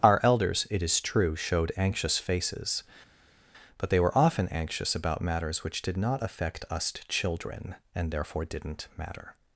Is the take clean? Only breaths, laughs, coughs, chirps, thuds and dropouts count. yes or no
yes